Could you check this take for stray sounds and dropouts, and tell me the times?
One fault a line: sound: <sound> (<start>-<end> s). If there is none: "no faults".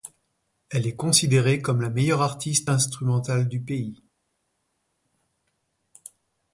no faults